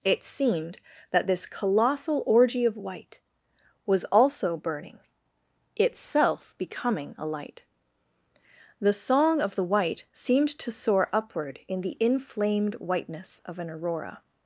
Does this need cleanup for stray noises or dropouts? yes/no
no